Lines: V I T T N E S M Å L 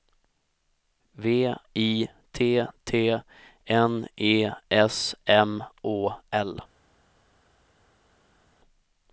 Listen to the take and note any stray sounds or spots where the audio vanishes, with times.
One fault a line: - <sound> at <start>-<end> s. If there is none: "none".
none